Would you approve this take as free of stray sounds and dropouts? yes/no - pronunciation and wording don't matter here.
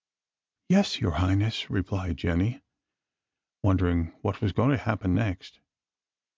yes